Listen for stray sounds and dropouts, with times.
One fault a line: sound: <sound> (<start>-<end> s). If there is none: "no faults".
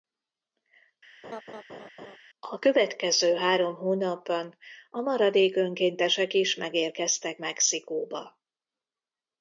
sound: laugh (1.2-2.2 s)